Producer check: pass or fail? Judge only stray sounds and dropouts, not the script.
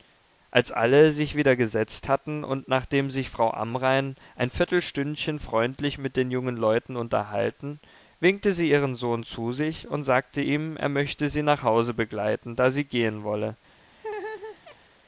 fail